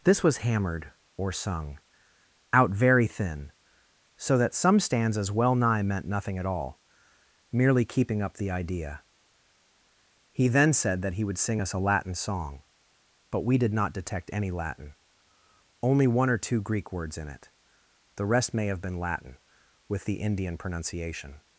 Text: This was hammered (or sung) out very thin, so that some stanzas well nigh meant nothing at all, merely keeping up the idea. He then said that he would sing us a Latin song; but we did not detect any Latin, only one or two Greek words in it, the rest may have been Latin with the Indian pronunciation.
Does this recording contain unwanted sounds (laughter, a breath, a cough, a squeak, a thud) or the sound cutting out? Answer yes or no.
no